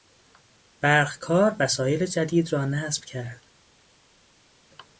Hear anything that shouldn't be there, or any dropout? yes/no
no